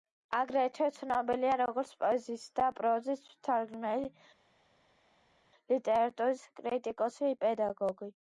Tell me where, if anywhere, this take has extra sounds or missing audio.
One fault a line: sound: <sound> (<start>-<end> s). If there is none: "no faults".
no faults